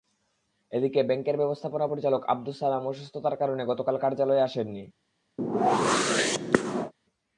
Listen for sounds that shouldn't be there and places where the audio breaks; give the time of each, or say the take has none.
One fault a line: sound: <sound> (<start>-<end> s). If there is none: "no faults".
sound: whoosh (5.4-6.9 s)